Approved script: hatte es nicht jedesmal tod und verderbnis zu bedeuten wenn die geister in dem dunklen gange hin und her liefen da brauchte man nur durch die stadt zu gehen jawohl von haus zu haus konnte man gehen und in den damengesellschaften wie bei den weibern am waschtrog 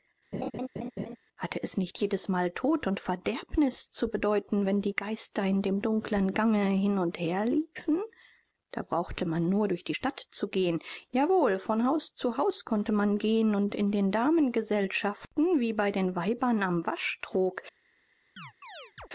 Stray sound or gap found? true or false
true